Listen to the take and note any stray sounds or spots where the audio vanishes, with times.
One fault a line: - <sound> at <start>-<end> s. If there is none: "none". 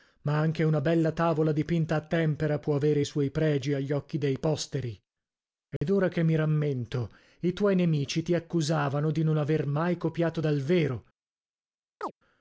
- dropout at 5.8-5.8 s
- chirp at 12.0-12.1 s